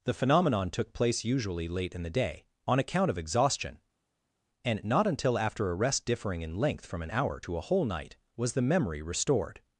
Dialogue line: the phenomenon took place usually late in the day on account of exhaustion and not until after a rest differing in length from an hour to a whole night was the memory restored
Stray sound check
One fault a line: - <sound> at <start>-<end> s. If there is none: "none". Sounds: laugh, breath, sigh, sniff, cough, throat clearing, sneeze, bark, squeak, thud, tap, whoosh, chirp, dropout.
none